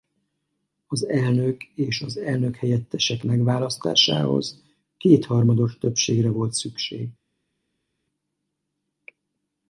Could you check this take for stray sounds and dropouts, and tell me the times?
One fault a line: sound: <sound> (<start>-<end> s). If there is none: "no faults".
no faults